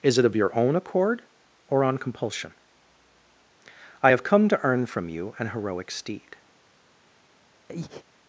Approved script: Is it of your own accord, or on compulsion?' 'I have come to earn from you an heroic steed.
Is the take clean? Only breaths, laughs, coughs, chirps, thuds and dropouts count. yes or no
no